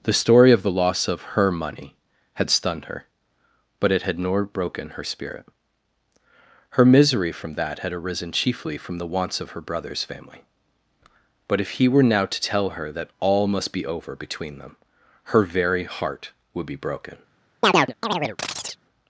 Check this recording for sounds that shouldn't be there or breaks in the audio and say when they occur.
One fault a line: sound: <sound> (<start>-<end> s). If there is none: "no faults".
sound: chirp (17.6-18.8 s)